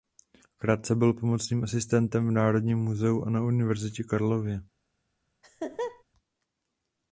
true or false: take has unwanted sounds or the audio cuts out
true